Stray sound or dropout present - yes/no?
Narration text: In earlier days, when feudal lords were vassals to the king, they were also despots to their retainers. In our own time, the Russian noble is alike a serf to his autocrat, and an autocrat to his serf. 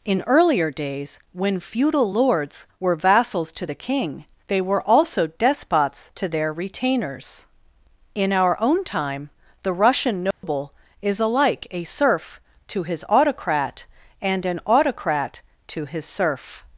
yes